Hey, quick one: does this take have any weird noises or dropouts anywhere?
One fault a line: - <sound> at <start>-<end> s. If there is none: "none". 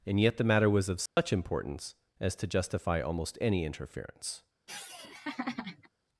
- dropout at 1.1-1.2 s
- laugh at 4.7-5.9 s